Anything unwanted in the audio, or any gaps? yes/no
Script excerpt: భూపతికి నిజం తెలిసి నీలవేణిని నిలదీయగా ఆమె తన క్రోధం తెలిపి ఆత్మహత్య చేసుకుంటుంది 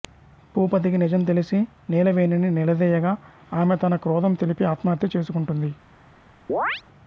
yes